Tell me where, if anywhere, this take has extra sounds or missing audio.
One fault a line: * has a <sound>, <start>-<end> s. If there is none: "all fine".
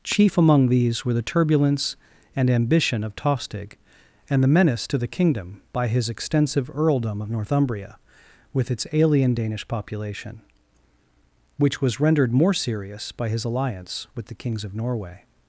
all fine